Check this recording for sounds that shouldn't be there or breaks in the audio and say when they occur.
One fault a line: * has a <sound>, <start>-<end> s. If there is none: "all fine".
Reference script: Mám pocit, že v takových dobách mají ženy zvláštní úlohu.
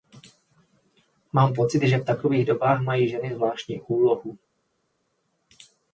all fine